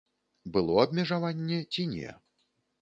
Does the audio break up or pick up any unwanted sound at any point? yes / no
no